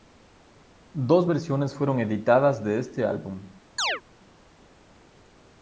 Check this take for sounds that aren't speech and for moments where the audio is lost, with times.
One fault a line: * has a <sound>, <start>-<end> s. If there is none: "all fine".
* has a chirp, 3.8-4.0 s